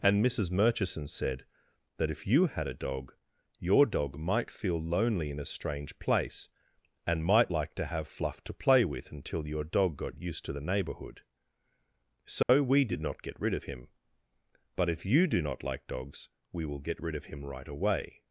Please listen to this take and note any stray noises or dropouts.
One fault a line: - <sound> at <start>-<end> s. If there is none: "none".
- dropout at 12.4-12.5 s